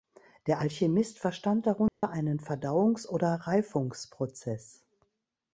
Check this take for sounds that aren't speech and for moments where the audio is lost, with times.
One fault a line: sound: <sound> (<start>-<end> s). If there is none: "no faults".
sound: dropout (1.9-2.0 s)